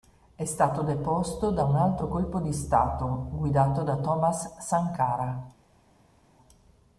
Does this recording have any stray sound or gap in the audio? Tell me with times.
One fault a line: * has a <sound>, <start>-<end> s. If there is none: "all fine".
all fine